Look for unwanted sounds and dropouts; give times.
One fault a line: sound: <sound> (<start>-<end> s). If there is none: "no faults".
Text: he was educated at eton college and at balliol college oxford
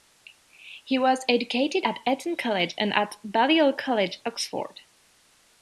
no faults